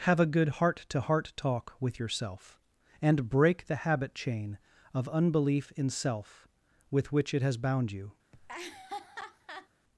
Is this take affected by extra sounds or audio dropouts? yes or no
yes